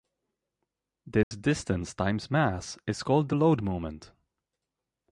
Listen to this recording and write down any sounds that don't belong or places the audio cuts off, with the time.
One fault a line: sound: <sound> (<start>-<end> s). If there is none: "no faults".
sound: dropout (1.2-1.3 s)